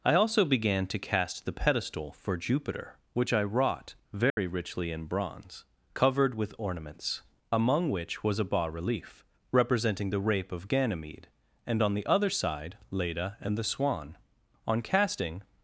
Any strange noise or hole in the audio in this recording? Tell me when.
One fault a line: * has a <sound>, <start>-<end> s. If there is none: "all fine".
* has a dropout, 4.3-4.4 s